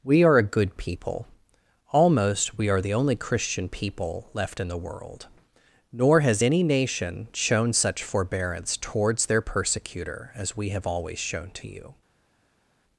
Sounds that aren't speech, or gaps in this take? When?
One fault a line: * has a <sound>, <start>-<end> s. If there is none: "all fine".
all fine